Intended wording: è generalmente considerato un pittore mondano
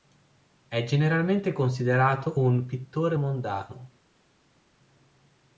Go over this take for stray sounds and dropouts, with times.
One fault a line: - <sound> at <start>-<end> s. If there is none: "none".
none